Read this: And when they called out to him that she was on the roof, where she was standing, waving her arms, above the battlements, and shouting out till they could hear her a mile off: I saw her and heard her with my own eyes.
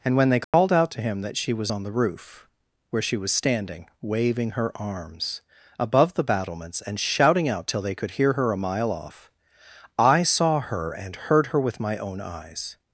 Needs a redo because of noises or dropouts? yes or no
yes